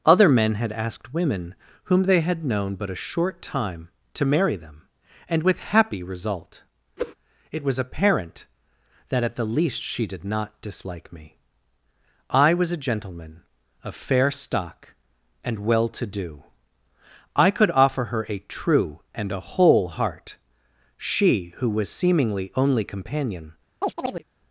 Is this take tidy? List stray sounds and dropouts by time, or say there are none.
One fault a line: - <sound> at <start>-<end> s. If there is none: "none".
- whoosh at 7.0-7.1 s
- chirp at 23.8-24.2 s